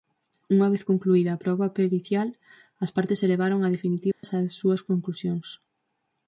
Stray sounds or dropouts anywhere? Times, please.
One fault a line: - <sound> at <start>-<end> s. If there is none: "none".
- dropout at 4.1-4.2 s